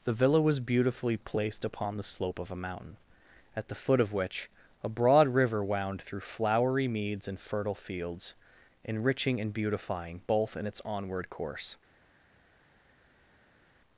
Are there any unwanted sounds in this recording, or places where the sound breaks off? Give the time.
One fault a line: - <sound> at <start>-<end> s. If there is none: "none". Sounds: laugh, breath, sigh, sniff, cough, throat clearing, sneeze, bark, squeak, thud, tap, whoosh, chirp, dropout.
none